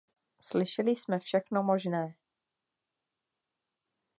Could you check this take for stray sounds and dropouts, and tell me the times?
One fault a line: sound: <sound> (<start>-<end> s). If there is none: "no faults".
no faults